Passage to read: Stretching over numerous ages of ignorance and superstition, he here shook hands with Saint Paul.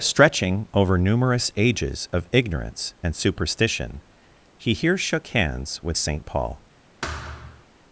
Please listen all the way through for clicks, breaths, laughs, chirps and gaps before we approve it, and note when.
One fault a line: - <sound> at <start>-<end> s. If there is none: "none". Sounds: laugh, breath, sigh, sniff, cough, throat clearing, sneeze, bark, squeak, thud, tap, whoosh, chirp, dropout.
- thud at 7.0-7.7 s